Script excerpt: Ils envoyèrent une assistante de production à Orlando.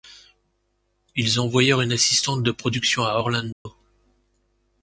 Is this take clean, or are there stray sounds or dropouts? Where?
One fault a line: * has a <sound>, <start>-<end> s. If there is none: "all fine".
* has a dropout, 3.5-3.7 s